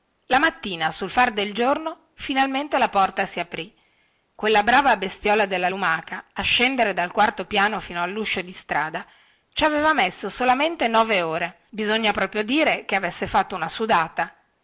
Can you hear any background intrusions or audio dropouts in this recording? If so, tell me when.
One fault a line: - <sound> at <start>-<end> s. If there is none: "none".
none